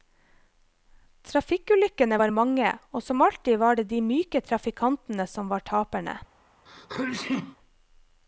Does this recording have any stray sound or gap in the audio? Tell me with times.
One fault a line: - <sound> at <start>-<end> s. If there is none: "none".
- sneeze at 6.7-7.6 s